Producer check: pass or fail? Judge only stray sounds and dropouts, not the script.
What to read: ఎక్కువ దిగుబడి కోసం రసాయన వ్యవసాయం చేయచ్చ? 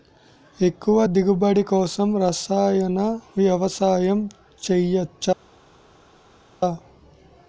pass